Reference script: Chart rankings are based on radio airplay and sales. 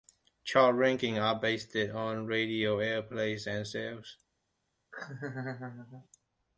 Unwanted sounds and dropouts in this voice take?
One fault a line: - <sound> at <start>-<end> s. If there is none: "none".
- laugh at 4.9-6.1 s